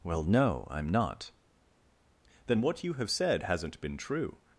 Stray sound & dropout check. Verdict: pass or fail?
pass